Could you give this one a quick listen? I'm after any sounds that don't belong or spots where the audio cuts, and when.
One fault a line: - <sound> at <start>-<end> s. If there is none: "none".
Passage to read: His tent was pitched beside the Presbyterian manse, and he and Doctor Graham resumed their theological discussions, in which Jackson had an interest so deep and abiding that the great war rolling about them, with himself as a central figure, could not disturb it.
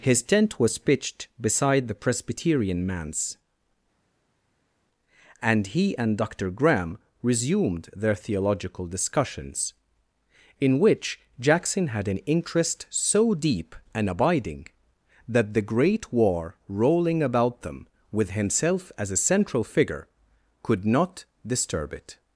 none